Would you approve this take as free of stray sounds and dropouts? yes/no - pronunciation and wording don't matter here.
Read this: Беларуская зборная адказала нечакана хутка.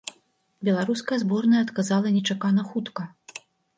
yes